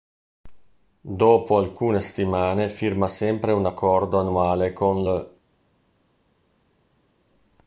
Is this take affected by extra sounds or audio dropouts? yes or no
no